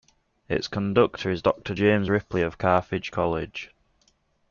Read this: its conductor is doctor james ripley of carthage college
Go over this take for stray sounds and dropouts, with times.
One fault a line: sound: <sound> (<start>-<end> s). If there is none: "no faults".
no faults